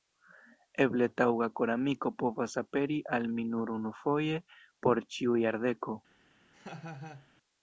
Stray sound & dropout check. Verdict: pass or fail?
fail